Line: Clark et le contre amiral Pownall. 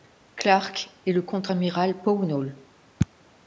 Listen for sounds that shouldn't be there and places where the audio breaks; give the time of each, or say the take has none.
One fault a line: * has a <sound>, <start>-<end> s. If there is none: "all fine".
all fine